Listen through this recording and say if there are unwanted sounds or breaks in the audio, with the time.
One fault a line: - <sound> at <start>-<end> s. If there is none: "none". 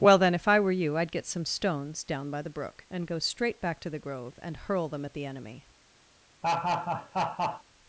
- laugh at 6.4-7.6 s